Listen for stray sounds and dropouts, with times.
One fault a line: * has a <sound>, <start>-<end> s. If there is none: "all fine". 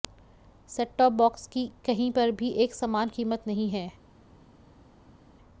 all fine